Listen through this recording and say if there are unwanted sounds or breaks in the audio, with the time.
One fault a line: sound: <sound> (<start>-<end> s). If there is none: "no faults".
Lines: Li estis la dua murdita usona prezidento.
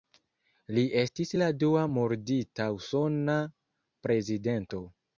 no faults